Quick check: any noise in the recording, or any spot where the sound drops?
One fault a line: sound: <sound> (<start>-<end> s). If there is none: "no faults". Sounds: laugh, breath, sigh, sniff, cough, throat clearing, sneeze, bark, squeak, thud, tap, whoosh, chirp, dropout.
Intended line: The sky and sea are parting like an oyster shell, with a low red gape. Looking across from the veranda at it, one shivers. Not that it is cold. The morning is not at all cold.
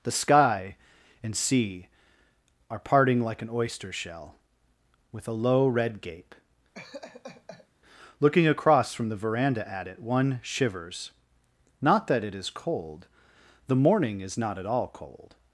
sound: laugh (6.7-7.7 s)